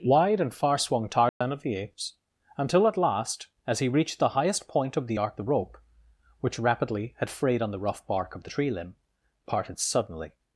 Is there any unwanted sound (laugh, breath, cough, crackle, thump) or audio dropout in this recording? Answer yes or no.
yes